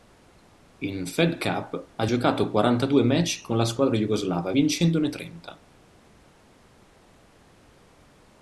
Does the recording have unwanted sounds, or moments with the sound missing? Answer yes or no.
no